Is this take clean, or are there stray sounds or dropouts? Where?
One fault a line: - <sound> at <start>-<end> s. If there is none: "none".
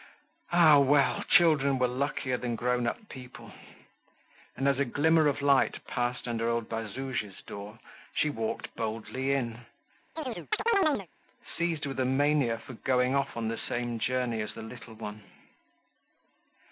- chirp at 10.2-11.1 s